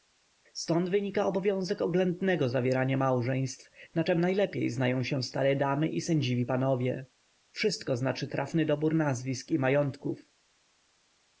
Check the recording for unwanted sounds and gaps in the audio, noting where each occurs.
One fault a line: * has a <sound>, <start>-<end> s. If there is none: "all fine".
all fine